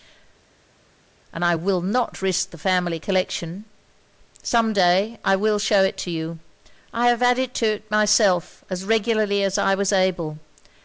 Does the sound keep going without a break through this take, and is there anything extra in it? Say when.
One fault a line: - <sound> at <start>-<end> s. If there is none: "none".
none